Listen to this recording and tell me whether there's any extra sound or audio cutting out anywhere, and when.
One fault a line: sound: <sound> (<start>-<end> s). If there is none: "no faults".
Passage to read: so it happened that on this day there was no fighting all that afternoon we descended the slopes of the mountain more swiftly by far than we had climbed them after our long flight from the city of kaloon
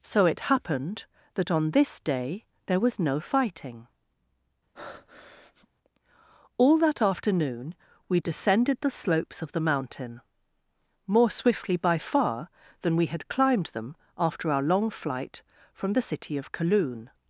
sound: breath (4.7-5.7 s)